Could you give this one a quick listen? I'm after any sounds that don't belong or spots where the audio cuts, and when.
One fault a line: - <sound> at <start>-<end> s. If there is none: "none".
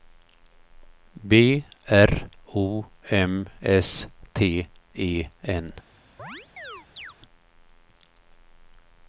- chirp at 6.2-7.1 s